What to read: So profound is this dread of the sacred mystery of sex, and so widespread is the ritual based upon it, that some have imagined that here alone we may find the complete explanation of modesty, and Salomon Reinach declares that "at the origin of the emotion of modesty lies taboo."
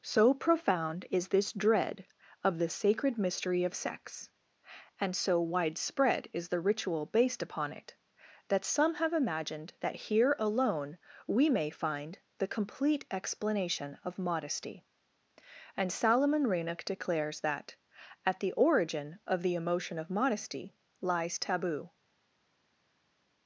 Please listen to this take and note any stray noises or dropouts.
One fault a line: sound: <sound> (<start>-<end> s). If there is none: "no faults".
no faults